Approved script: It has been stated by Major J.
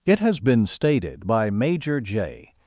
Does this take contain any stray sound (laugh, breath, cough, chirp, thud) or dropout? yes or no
no